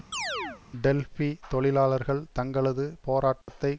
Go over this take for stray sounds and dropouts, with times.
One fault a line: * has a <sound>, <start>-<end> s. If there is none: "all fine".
* has a chirp, 0.1-0.6 s
* has a dropout, 3.4-3.5 s